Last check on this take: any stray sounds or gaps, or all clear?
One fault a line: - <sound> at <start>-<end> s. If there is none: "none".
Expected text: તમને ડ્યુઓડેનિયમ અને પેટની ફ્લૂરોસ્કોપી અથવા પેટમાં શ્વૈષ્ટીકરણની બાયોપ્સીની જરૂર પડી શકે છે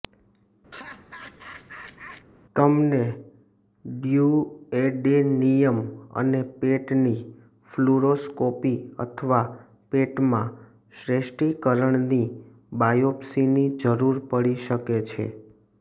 - laugh at 0.7-2.3 s